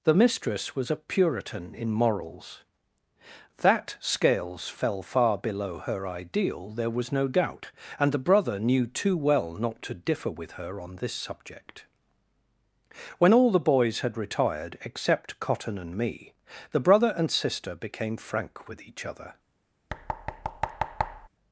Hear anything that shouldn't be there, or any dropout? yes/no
yes